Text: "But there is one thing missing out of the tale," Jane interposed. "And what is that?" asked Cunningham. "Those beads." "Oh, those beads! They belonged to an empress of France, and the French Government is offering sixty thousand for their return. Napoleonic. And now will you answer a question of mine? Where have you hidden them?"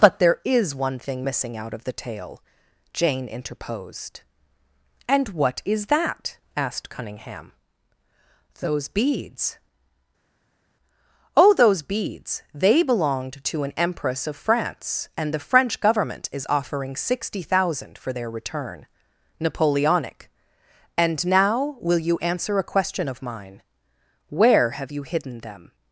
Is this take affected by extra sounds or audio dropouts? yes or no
no